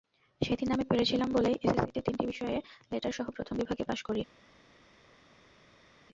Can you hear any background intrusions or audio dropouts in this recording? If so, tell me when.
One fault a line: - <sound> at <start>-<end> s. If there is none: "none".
none